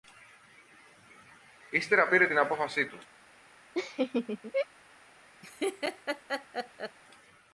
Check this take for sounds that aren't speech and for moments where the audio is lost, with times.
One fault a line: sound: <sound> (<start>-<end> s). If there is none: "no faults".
sound: laugh (3.7-4.7 s)
sound: laugh (5.4-7.0 s)